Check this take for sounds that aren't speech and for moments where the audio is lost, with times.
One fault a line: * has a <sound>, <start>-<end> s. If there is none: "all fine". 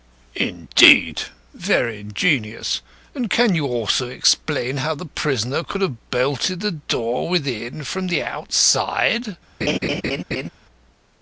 * has a laugh, 9.6-10.5 s